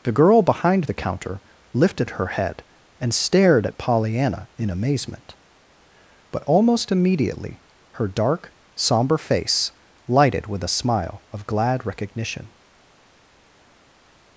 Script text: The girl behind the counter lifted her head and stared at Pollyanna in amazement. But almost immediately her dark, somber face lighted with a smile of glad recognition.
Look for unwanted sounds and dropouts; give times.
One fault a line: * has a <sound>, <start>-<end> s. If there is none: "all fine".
all fine